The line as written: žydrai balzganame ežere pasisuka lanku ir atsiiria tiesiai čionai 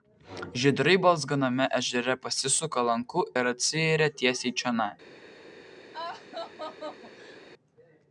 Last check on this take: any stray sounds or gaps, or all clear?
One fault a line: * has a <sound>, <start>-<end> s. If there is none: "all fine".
* has a laugh, 5.9-7.4 s